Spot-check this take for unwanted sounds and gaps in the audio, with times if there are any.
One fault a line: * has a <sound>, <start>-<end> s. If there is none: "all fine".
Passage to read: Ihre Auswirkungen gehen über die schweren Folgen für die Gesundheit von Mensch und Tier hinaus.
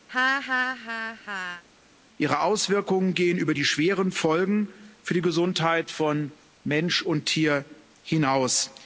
* has a laugh, 0.1-1.6 s